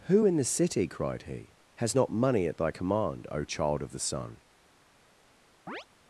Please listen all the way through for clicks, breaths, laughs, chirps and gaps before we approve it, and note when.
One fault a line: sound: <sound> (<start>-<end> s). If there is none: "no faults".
sound: chirp (5.7-5.9 s)